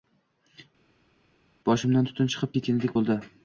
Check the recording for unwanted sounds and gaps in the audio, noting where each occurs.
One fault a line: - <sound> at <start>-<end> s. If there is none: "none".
none